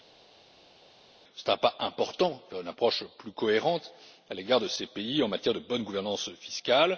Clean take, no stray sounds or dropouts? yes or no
yes